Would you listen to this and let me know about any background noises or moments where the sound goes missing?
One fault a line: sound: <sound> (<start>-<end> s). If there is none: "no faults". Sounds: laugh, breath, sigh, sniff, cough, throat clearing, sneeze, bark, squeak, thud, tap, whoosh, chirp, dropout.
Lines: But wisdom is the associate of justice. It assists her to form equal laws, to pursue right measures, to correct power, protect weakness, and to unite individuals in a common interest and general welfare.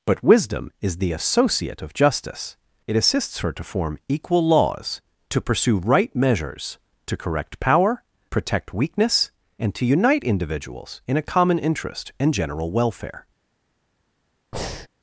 sound: breath (14.5-14.9 s)